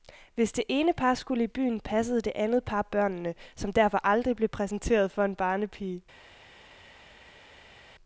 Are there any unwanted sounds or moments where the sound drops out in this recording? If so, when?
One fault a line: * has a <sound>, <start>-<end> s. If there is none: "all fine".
all fine